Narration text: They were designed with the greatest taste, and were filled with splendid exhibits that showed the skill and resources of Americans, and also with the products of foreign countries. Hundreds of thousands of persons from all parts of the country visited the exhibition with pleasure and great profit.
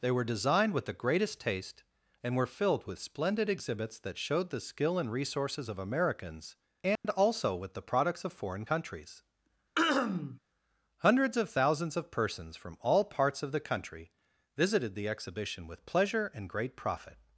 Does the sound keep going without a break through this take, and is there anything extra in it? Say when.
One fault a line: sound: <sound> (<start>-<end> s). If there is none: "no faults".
sound: dropout (7.0-7.0 s)
sound: throat clearing (9.8-10.4 s)